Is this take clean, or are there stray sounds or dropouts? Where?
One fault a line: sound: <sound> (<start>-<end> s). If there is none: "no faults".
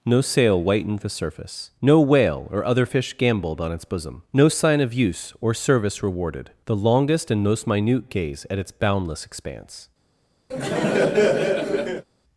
sound: laugh (10.5-12.1 s)